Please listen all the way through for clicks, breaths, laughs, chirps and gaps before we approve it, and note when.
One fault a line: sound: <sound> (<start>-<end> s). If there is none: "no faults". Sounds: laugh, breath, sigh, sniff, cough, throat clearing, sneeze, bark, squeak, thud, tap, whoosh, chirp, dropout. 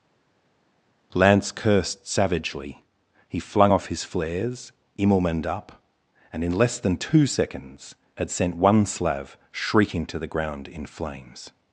no faults